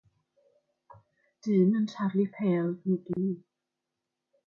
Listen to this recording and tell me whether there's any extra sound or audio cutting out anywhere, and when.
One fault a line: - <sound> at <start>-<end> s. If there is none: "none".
- dropout at 3.1-3.2 s